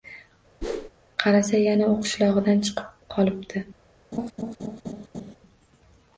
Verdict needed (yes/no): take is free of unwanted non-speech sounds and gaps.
no